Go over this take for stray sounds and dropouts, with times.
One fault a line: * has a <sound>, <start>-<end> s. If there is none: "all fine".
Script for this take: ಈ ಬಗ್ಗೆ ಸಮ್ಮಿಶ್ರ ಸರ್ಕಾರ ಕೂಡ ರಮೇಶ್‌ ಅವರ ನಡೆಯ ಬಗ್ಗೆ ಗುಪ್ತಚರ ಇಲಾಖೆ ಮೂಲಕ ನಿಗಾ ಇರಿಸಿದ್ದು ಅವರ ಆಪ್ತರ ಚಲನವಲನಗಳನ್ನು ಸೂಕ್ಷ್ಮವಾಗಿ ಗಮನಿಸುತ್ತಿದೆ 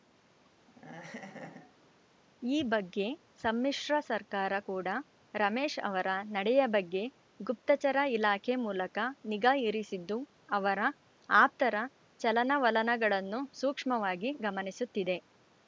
* has a laugh, 0.7-1.9 s